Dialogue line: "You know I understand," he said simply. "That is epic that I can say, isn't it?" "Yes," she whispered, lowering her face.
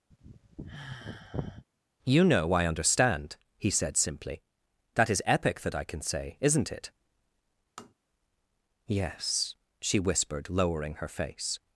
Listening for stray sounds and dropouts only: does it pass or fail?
fail